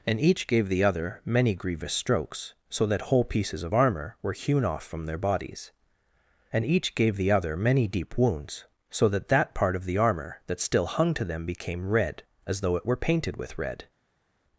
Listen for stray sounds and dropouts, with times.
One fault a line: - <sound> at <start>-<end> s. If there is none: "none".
none